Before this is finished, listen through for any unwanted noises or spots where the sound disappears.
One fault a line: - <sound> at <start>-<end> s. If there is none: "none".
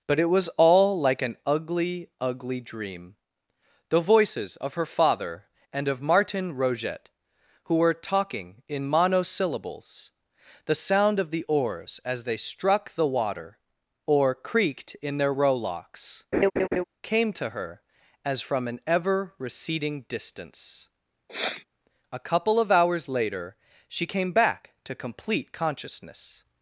- laugh at 16.3-16.8 s
- sniff at 21.3-21.7 s